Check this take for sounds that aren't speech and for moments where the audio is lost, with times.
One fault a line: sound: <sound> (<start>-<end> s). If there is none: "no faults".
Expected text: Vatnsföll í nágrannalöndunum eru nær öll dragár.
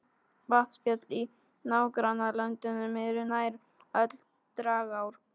no faults